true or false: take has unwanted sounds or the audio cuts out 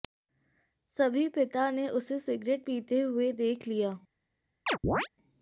true